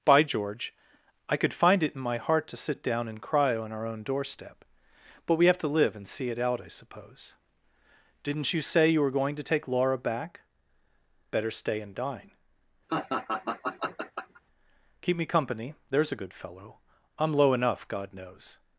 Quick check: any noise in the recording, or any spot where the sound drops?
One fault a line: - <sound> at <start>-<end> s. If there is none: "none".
- laugh at 12.9-14.4 s